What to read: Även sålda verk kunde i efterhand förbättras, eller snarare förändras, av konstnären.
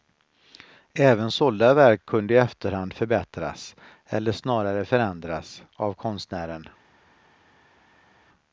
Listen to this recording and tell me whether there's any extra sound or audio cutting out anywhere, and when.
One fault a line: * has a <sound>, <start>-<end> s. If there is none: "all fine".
all fine